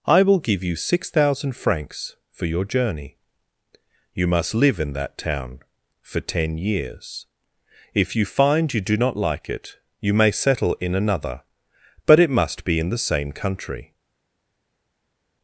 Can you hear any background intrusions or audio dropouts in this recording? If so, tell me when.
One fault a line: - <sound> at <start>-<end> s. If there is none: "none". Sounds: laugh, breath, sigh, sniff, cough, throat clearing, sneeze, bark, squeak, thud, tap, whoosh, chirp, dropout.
none